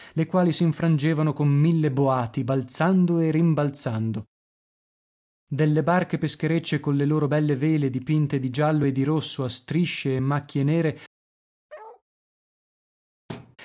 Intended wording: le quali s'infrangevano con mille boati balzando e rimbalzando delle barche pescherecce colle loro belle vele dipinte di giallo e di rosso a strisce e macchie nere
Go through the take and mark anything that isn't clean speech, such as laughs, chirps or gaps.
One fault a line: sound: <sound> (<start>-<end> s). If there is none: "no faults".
sound: bark (11.7-12.0 s)
sound: thud (13.3-13.6 s)